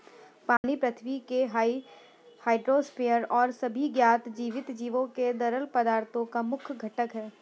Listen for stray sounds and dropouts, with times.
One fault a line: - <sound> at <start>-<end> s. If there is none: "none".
- dropout at 0.6-0.6 s